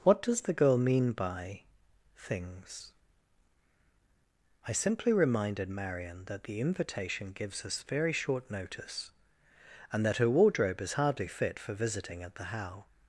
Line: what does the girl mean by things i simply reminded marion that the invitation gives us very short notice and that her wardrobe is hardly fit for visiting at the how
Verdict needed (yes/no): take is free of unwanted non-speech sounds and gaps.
yes